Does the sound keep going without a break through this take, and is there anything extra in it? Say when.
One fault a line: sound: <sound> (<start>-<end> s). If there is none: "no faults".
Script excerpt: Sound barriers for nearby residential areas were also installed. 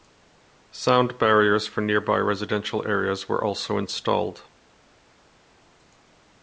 no faults